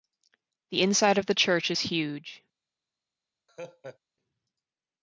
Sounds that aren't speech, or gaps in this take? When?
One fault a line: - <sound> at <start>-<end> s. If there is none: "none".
- laugh at 3.5-4.0 s